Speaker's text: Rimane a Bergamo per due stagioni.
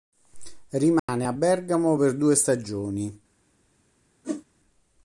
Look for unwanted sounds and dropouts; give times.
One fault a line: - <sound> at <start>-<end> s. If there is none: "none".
- dropout at 1.0-1.1 s
- whoosh at 4.2-4.4 s